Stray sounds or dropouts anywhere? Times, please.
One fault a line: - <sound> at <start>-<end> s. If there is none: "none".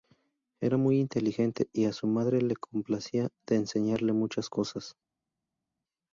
none